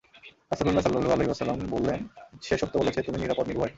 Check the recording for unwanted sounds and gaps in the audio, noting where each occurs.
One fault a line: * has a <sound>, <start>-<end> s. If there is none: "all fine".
all fine